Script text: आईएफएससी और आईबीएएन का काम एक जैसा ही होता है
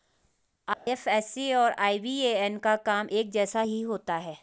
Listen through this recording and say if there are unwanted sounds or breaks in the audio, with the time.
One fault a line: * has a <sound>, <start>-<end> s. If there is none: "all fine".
* has a dropout, 0.7-0.9 s